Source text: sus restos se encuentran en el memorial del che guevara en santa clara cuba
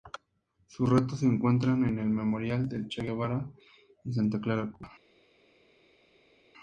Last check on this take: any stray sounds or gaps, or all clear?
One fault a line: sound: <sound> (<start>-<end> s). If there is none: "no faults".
no faults